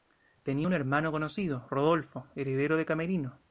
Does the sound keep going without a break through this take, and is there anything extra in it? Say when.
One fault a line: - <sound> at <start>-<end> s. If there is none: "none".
none